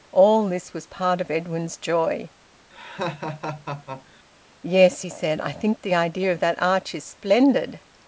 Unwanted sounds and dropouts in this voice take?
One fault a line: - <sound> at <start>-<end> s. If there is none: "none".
- laugh at 2.7-4.2 s